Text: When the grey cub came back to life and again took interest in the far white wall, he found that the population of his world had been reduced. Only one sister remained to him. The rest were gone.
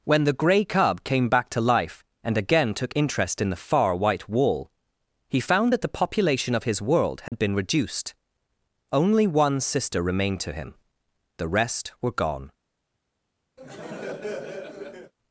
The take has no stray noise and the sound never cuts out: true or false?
false